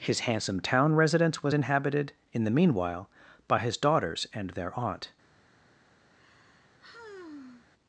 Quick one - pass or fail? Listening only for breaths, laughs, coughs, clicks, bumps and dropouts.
fail